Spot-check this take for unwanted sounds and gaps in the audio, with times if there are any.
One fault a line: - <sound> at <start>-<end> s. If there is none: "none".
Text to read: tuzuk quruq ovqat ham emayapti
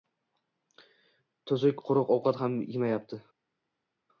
none